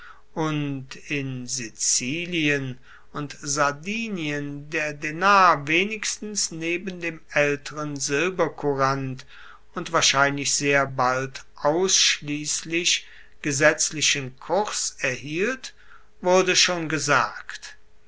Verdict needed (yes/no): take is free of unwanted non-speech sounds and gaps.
yes